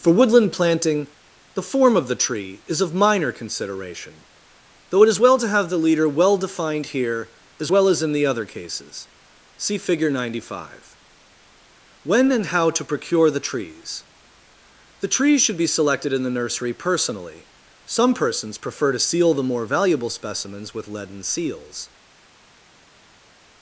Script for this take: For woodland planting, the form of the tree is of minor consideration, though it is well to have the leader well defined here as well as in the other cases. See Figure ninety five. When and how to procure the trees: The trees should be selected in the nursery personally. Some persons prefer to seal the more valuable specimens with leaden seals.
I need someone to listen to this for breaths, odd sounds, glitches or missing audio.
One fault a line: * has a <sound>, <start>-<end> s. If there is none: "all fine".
all fine